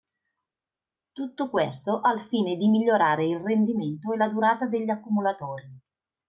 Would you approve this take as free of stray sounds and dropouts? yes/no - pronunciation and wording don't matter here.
yes